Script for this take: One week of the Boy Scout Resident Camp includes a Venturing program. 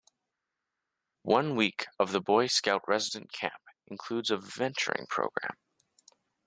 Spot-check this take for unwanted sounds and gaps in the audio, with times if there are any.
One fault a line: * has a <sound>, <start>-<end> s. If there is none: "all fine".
all fine